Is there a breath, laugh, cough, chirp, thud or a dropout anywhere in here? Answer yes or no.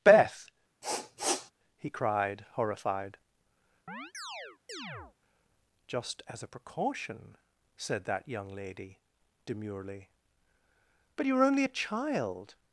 yes